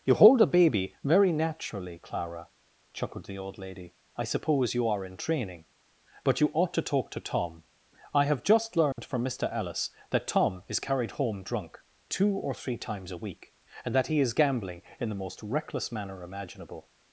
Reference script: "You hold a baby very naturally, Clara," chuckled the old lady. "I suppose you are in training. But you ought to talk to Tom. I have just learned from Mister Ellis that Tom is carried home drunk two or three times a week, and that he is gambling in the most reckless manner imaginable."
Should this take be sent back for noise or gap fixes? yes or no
yes